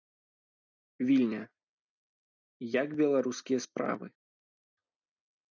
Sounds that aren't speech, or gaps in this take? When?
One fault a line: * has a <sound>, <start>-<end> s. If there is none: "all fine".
all fine